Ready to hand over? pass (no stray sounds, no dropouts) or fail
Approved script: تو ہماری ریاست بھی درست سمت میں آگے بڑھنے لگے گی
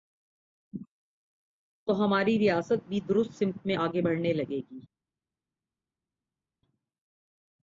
pass